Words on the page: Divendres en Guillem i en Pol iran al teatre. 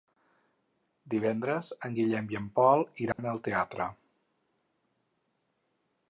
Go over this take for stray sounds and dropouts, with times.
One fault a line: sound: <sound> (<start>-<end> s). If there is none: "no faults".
sound: dropout (3.1-3.2 s)